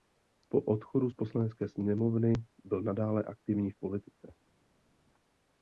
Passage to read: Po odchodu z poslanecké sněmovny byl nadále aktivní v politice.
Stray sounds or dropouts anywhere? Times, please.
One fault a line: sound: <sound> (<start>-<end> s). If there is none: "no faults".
no faults